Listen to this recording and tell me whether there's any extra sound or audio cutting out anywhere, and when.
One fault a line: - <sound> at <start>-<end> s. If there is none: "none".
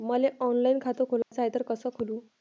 - dropout at 1.2-1.3 s